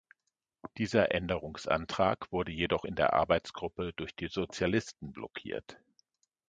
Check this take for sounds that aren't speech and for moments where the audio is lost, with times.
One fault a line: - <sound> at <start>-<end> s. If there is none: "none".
none